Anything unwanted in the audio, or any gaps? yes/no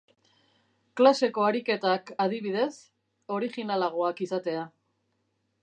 no